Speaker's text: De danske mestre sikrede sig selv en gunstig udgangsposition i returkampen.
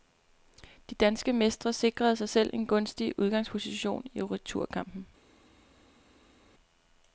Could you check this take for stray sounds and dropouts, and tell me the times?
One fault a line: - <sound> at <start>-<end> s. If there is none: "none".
none